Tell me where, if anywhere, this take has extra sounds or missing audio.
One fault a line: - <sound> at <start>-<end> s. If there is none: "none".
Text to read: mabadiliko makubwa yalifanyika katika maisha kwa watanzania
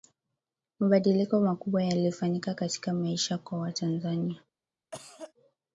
- cough at 4.9-5.3 s